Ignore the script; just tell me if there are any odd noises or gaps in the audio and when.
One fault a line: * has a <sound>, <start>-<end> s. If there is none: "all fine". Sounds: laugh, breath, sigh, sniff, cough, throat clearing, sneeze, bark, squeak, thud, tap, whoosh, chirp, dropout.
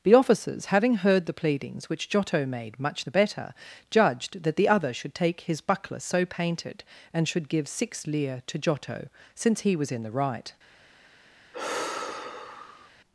* has a sigh, 11.5-12.9 s